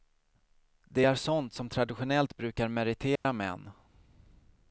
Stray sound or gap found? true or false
true